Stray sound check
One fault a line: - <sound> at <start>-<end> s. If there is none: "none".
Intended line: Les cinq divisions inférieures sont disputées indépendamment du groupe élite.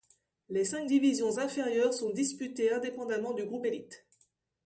none